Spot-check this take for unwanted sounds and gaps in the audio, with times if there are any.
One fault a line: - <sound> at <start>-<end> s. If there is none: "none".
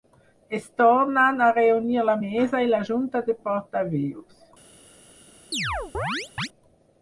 - chirp at 5.5-6.5 s